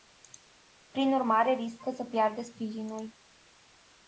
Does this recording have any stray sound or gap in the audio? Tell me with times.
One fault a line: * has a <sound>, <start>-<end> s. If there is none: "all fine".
all fine